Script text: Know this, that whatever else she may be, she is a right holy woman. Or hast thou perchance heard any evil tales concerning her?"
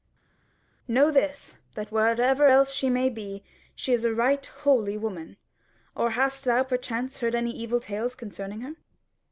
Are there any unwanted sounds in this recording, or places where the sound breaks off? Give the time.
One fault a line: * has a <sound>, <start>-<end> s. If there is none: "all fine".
all fine